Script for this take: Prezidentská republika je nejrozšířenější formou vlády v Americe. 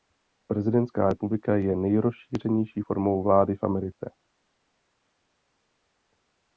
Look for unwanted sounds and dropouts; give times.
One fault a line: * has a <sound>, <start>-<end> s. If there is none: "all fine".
all fine